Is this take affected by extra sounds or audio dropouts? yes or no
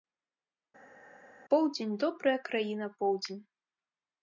no